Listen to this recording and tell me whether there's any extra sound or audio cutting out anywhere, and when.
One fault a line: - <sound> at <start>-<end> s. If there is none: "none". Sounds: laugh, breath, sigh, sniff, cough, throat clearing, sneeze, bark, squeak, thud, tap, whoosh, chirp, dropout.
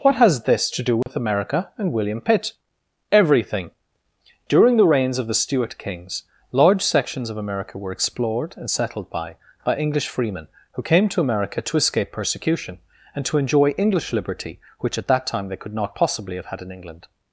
- dropout at 1.0-1.1 s